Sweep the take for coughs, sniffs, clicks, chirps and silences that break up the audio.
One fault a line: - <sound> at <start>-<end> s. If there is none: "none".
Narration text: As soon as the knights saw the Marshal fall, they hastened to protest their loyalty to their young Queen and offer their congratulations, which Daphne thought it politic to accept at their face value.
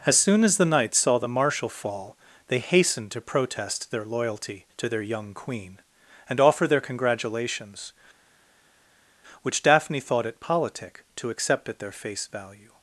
none